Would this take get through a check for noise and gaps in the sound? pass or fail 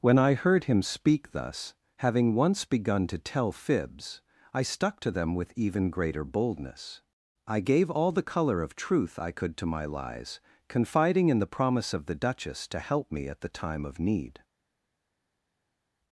pass